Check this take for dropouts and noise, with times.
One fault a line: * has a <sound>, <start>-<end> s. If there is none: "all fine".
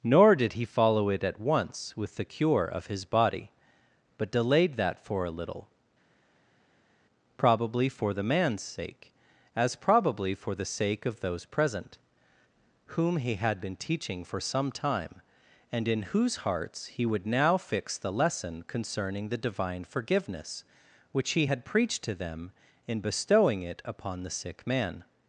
all fine